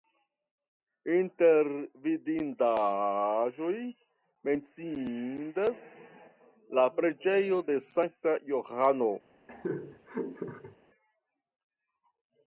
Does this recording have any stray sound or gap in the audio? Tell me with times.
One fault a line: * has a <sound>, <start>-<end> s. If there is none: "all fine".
* has a laugh, 9.5-10.8 s